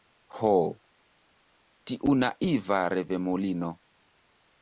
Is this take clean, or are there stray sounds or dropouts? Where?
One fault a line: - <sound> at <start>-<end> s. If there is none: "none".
none